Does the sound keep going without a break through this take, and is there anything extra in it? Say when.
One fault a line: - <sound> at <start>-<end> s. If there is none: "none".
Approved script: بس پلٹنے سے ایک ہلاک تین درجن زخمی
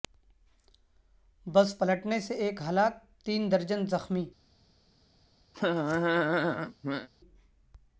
- laugh at 5.5-7.1 s